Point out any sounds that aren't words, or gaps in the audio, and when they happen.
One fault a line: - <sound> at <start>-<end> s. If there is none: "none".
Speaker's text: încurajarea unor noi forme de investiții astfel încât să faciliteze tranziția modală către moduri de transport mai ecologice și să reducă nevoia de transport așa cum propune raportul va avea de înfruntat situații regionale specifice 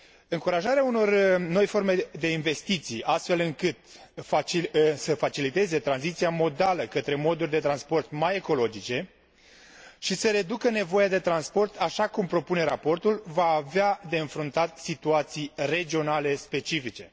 none